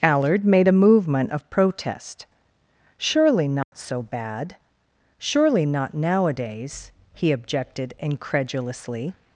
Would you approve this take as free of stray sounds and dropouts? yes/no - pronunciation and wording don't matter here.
no